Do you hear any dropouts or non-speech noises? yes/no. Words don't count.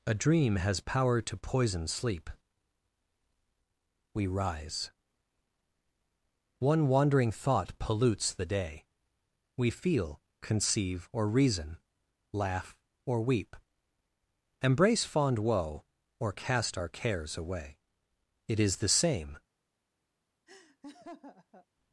yes